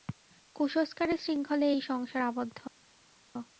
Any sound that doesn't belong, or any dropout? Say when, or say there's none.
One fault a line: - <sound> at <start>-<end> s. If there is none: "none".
none